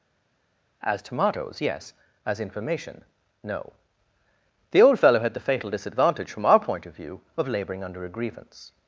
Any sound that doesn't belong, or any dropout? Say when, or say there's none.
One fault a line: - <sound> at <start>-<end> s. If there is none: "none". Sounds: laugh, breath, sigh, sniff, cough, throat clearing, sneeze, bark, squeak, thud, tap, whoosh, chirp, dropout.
none